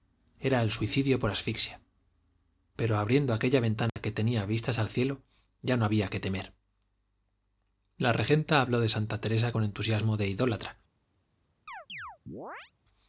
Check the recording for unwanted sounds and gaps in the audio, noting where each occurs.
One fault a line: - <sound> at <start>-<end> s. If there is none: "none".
- dropout at 3.9-4.0 s
- chirp at 11.7-12.7 s